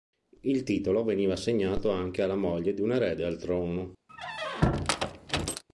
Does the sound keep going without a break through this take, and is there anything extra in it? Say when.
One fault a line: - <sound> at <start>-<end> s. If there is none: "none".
- squeak at 4.1-5.6 s